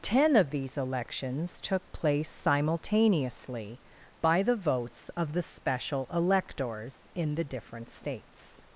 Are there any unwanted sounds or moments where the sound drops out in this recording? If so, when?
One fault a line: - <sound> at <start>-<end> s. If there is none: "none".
none